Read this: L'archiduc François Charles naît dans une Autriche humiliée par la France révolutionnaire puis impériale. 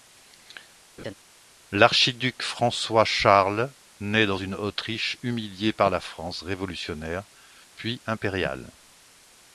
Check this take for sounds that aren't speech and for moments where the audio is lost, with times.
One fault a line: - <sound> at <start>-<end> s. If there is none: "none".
- laugh at 1.0-1.1 s